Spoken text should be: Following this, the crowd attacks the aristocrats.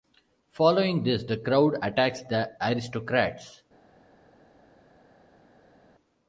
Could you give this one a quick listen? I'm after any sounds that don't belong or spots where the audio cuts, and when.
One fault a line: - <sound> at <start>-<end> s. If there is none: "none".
none